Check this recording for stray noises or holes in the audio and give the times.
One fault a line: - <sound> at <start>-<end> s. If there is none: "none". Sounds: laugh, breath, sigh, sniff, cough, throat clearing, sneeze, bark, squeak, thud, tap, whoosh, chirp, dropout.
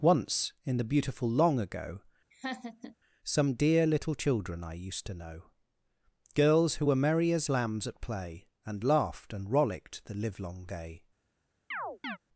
- laugh at 2.3-3.0 s
- chirp at 11.7-12.2 s